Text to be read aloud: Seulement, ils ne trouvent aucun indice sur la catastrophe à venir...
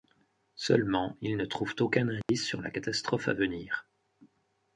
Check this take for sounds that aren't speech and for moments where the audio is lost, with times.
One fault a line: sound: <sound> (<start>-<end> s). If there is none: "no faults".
sound: dropout (2.2-2.3 s)